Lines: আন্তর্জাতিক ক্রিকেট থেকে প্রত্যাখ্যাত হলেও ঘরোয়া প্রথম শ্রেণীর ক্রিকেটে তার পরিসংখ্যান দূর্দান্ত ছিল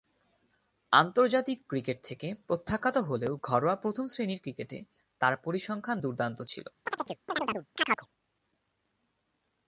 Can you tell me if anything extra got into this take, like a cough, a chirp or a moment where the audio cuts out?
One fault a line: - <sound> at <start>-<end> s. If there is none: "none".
- chirp at 6.9-8.1 s